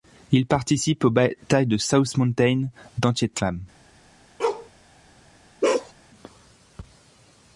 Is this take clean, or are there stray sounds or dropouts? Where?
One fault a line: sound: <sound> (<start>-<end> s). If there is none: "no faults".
sound: bark (4.4-4.7 s)
sound: bark (5.6-5.9 s)